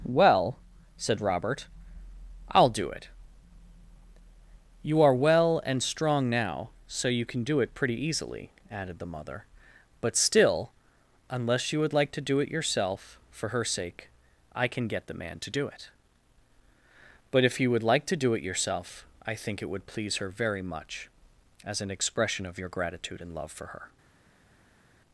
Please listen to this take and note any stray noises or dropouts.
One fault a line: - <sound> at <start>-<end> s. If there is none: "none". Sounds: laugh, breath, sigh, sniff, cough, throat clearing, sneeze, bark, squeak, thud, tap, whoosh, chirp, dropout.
none